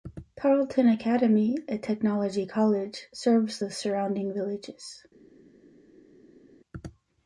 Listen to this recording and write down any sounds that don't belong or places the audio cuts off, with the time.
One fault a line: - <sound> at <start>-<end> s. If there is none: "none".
none